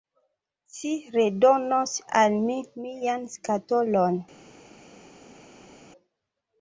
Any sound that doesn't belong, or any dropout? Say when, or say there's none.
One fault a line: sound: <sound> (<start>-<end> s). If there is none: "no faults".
no faults